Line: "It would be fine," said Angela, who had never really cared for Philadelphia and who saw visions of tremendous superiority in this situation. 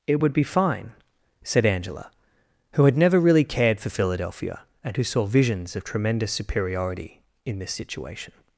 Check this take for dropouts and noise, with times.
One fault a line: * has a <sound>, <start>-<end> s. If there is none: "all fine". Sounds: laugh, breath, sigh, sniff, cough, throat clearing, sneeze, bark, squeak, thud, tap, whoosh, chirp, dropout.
all fine